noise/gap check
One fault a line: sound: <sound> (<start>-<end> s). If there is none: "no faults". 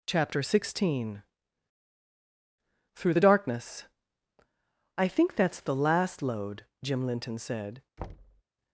sound: thud (8.0-8.4 s)